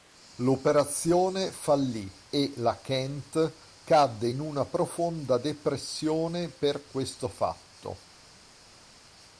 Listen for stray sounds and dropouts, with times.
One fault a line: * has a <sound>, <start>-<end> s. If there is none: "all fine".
all fine